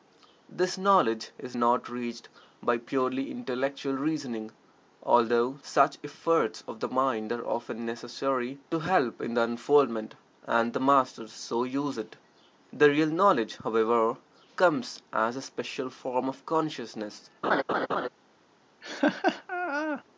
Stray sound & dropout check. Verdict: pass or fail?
fail